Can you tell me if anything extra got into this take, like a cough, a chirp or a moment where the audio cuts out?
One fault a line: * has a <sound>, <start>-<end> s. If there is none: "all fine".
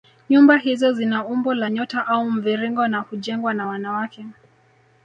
all fine